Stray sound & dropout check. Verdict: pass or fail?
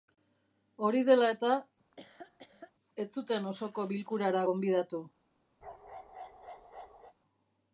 fail